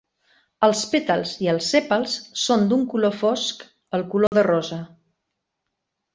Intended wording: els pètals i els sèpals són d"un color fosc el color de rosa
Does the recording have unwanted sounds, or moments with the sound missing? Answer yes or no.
yes